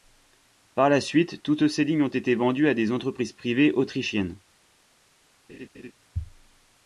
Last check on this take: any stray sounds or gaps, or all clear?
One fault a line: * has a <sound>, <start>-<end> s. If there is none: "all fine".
* has a laugh, 5.5-5.9 s